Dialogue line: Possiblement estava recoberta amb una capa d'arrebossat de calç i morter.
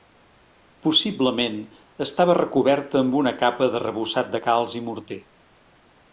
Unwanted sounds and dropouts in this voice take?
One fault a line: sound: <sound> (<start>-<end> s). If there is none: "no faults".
no faults